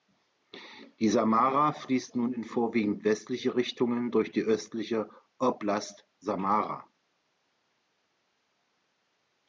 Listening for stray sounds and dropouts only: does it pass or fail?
pass